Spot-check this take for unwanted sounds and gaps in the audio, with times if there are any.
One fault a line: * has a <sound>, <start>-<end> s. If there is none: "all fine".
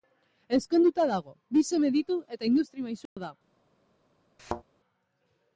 * has a dropout, 3.1-3.2 s
* has a thud, 4.4-4.6 s